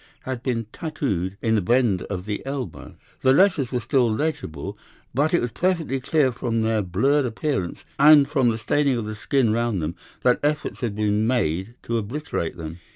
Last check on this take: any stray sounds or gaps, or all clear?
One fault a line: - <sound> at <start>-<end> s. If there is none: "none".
none